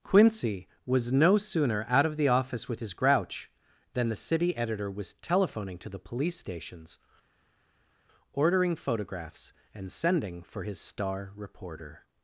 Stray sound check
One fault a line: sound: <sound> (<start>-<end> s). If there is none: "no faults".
no faults